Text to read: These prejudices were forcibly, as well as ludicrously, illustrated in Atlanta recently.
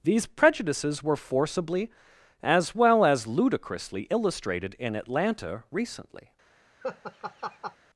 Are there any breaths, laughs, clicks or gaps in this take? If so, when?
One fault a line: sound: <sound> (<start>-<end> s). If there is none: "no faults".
sound: laugh (6.8-7.8 s)